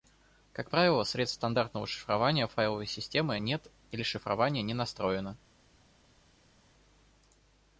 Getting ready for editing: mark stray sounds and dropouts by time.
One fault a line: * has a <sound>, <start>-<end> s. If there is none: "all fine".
all fine